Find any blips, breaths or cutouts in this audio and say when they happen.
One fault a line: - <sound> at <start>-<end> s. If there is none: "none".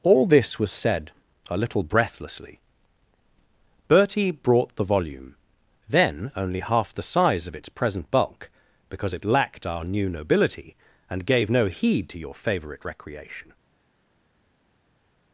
none